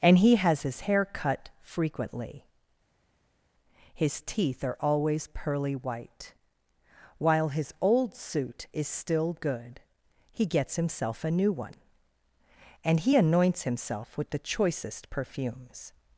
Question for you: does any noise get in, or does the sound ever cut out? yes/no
no